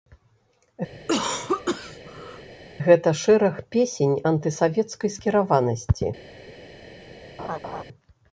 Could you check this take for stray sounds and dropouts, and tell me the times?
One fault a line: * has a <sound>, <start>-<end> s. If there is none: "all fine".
* has a cough, 0.9-2.5 s
* has a laugh, 7.4-7.8 s